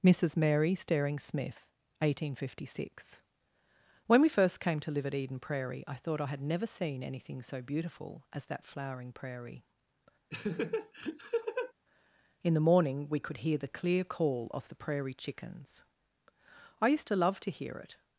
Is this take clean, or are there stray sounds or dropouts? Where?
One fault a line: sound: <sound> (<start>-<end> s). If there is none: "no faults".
sound: laugh (10.3-11.7 s)